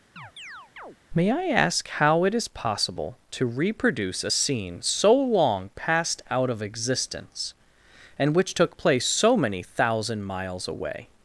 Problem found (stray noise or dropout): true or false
true